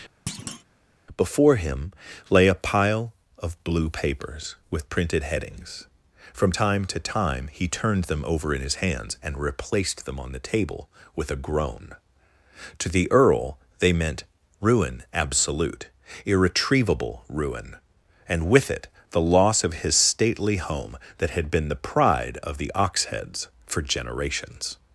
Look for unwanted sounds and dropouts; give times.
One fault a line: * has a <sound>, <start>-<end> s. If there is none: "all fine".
* has a thud, 0.3-0.6 s